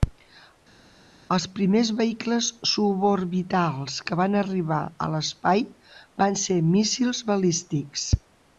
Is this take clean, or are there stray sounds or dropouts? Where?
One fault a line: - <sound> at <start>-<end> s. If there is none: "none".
none